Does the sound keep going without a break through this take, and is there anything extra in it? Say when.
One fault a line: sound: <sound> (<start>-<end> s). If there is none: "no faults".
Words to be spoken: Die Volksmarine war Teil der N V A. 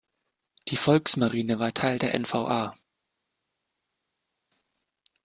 no faults